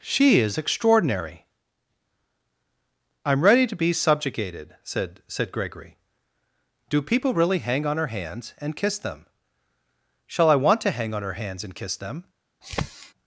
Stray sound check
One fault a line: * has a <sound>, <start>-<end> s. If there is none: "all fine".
* has a sniff, 12.6-13.1 s